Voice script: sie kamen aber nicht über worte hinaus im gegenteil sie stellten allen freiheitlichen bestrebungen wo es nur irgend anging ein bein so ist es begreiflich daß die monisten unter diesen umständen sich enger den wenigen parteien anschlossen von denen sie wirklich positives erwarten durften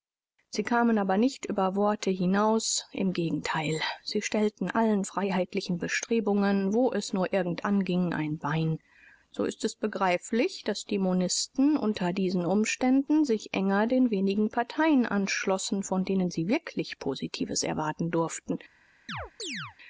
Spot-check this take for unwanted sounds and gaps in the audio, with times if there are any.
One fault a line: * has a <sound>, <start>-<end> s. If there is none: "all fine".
* has a chirp, 19.1-19.8 s